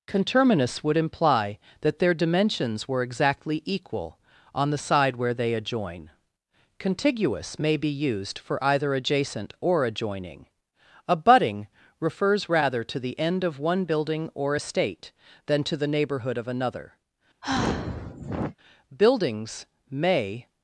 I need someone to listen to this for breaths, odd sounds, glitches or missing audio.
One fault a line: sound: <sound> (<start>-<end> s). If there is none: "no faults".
sound: sigh (17.4-18.6 s)